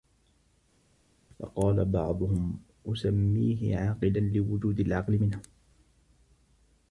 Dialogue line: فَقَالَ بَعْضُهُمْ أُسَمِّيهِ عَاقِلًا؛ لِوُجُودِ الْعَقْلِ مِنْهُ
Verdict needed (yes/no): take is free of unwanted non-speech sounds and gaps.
yes